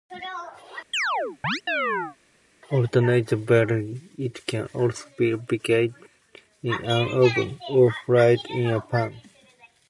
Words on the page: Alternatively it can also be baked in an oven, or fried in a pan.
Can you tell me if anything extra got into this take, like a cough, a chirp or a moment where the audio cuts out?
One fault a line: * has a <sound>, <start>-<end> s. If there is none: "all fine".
* has a chirp, 0.9-2.2 s